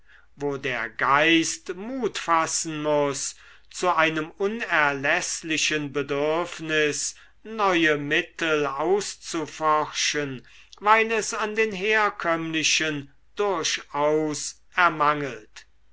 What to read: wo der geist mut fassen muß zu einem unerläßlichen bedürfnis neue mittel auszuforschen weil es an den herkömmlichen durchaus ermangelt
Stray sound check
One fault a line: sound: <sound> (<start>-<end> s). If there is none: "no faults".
no faults